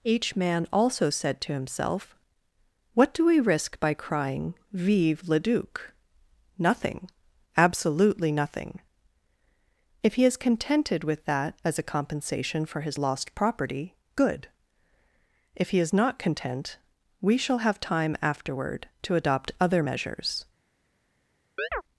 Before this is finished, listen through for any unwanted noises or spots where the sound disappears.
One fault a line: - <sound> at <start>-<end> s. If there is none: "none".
- chirp at 21.6-21.8 s